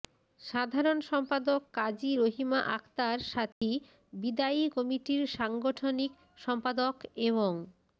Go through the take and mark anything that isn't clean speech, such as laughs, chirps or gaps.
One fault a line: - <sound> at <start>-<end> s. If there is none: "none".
- dropout at 3.5-3.6 s